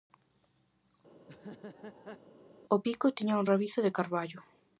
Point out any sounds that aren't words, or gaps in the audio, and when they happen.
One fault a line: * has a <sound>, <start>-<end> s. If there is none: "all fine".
* has a laugh, 1.2-2.2 s